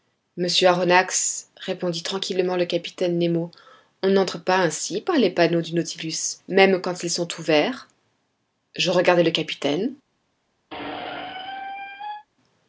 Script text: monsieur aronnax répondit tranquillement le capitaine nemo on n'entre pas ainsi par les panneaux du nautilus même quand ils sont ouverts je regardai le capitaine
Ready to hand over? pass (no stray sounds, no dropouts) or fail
fail